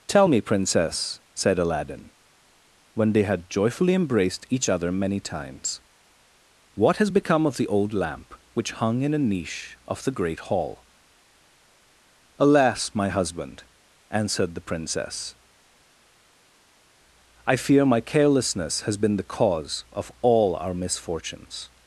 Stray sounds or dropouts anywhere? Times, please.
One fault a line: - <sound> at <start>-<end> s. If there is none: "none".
none